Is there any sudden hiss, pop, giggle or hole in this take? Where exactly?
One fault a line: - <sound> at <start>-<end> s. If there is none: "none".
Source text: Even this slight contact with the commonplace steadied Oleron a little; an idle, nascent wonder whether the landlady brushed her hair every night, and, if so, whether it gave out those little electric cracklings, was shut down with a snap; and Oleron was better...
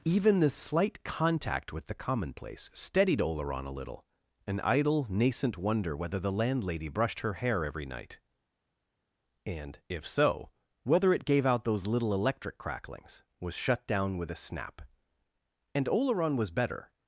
none